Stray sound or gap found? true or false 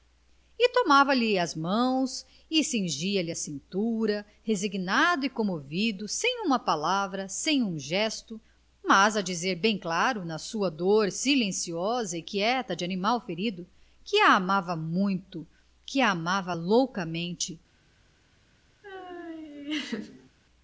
true